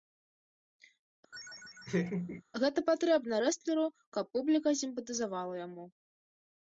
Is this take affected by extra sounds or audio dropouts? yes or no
yes